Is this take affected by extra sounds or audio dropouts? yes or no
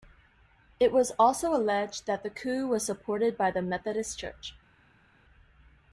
no